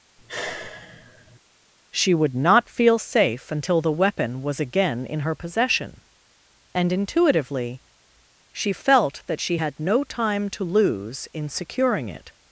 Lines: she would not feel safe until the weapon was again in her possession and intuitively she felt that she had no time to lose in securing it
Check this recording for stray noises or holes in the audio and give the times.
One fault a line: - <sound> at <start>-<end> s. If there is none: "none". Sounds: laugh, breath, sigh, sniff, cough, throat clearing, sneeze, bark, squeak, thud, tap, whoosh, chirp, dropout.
- sigh at 0.2-1.4 s